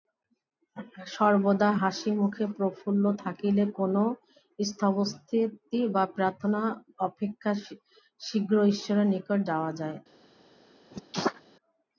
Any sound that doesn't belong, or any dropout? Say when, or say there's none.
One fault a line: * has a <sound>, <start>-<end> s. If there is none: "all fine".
* has a sneeze, 10.9-11.4 s